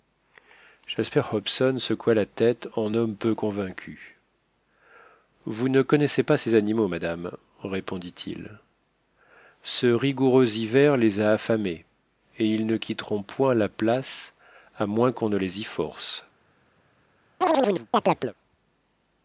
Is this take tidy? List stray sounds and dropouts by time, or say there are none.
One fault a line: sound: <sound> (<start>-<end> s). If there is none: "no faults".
sound: chirp (17.4-18.3 s)